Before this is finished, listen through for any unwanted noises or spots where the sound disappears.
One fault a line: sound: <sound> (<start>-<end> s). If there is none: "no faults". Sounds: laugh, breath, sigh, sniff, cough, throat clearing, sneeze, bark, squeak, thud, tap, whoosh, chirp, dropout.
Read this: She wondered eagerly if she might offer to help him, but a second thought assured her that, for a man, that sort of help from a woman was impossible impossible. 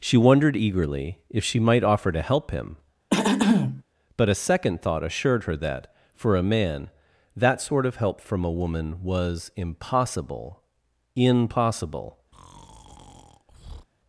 sound: throat clearing (3.1-3.8 s)
sound: breath (12.3-13.9 s)